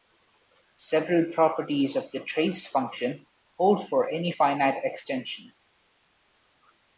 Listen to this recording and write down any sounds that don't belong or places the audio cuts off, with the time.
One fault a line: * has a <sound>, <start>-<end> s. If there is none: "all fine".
all fine